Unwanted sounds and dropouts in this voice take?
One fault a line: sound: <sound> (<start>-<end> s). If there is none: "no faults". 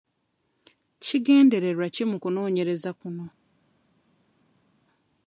no faults